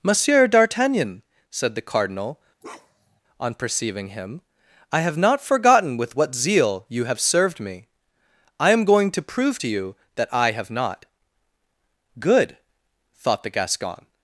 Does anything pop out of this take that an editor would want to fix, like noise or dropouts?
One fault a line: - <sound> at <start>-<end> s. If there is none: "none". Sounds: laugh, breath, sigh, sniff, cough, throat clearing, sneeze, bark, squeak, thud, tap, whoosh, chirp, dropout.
- bark at 2.6-3.2 s